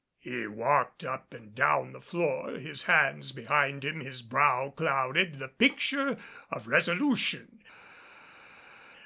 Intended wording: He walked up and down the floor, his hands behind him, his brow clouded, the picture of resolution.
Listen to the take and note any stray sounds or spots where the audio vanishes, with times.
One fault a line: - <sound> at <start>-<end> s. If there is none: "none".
none